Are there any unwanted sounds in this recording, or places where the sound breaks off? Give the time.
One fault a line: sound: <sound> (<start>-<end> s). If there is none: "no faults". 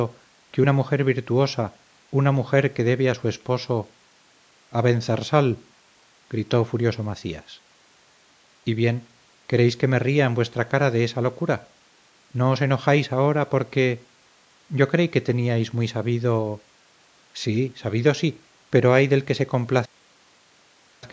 no faults